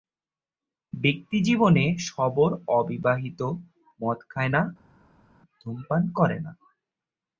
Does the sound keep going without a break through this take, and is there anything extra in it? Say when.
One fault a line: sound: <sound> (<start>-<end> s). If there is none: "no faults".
no faults